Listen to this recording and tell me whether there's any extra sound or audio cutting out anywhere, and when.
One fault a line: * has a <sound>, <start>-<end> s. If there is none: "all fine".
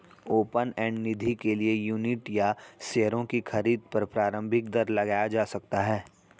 all fine